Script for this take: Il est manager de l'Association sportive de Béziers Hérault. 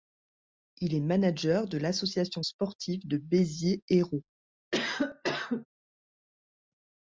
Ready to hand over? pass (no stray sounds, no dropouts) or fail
fail